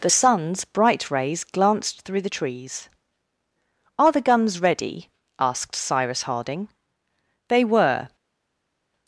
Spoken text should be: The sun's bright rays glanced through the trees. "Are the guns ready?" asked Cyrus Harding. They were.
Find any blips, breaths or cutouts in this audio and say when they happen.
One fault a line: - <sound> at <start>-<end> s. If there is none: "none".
none